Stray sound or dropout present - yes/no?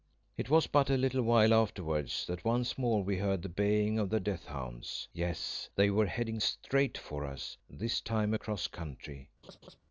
yes